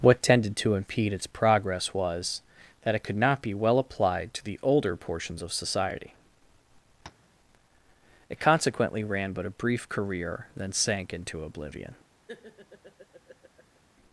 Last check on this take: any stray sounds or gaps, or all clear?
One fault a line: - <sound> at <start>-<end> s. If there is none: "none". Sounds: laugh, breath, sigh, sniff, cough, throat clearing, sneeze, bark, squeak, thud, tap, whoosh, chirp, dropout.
- tap at 7.0-7.3 s
- laugh at 12.3-13.8 s